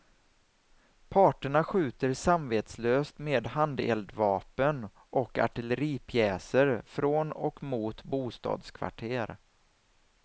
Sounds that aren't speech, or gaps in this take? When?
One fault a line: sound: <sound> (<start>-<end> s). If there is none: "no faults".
no faults